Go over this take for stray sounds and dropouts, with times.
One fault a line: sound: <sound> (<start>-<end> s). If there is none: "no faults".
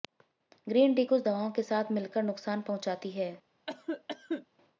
sound: cough (3.7-4.5 s)